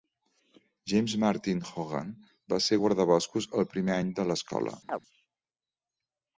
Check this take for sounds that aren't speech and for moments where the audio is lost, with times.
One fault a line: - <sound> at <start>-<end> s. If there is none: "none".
- chirp at 4.9-5.0 s